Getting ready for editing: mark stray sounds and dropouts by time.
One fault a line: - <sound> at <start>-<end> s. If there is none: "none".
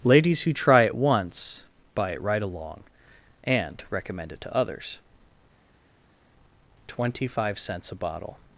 none